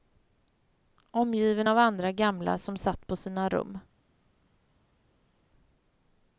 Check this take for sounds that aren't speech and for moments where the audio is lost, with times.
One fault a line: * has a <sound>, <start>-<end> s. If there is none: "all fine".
all fine